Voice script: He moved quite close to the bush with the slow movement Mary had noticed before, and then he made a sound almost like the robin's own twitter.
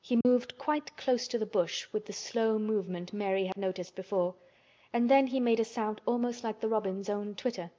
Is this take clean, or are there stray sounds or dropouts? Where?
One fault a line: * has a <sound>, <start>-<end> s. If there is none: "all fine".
* has a dropout, 0.2-0.3 s
* has a dropout, 3.5-3.6 s